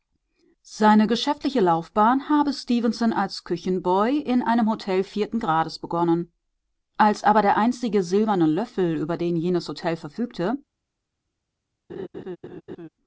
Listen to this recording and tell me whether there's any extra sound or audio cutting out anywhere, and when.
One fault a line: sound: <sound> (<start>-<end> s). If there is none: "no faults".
sound: laugh (11.9-12.9 s)